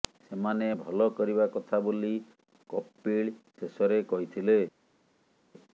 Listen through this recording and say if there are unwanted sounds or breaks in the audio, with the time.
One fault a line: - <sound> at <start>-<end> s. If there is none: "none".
none